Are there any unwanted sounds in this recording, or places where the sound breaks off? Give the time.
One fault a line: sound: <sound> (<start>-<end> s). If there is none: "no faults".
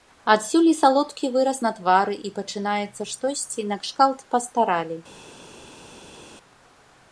no faults